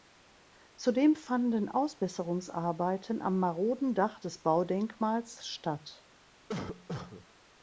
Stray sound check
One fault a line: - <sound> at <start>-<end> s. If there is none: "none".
- cough at 6.5-7.3 s